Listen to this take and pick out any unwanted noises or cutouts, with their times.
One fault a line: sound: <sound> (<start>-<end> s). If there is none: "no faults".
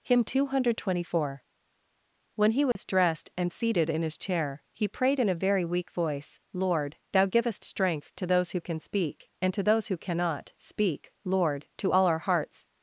sound: dropout (2.7-2.8 s)